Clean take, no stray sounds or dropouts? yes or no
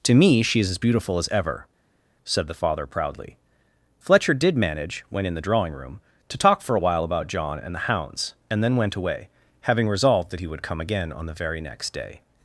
yes